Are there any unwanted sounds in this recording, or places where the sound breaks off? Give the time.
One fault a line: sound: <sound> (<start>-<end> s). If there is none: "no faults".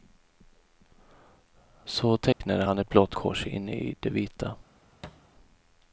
sound: dropout (2.3-2.4 s)
sound: thud (5.0-5.3 s)